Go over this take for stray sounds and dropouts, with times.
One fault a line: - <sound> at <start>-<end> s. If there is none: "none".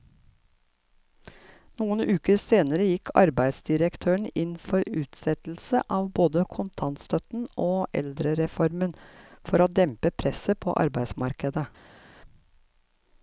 none